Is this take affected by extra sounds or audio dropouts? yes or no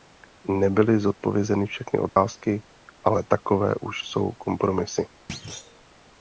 yes